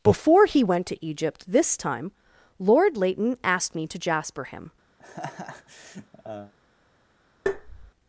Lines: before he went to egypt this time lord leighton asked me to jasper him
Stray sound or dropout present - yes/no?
yes